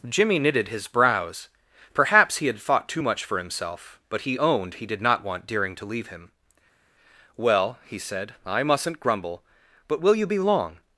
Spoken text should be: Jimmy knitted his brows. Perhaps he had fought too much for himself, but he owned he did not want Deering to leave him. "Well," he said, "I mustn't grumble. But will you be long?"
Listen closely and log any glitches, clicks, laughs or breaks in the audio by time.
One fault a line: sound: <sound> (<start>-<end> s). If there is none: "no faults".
no faults